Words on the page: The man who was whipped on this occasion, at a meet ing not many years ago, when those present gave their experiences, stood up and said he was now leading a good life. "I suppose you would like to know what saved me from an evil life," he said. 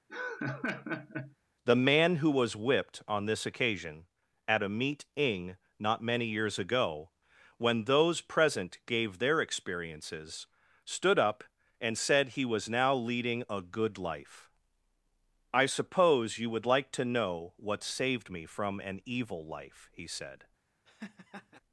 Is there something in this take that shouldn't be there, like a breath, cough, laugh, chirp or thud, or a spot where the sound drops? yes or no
yes